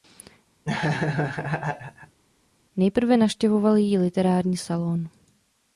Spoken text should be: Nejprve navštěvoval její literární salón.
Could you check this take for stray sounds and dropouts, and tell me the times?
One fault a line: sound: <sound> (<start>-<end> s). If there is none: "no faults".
sound: laugh (0.6-2.2 s)